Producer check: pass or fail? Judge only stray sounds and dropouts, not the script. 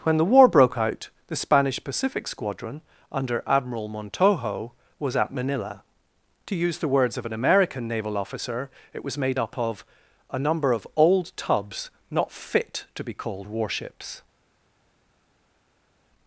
pass